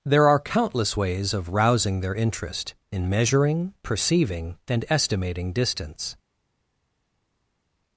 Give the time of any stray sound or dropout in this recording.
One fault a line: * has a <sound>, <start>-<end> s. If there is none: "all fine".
all fine